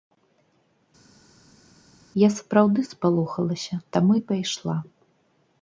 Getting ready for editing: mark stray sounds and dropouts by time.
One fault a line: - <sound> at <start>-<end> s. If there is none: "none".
none